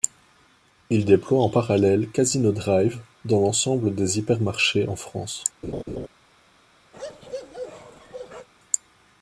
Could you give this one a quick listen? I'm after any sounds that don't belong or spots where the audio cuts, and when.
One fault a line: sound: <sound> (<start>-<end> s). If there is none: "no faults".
sound: laugh (5.6-6.1 s)
sound: bark (6.9-8.5 s)